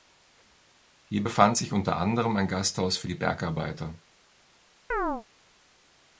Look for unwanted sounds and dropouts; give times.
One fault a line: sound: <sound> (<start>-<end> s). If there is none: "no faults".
sound: chirp (4.9-5.2 s)